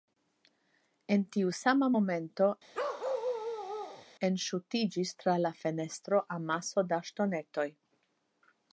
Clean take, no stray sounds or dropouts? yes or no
no